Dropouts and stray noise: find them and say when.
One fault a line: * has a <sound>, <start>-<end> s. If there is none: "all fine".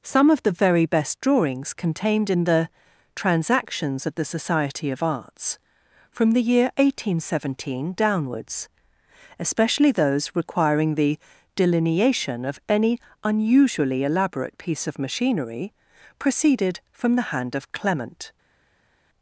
all fine